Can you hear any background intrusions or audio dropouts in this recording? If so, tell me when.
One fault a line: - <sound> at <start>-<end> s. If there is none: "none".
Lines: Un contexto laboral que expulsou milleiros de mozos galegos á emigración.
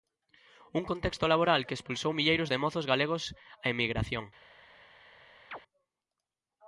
- chirp at 5.5-5.6 s